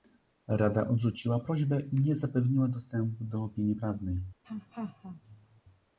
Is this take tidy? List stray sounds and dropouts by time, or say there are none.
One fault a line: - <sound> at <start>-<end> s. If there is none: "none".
- laugh at 4.4-5.6 s